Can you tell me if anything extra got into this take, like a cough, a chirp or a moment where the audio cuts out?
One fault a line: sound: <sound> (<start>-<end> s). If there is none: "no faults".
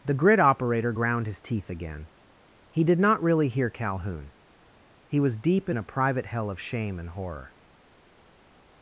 no faults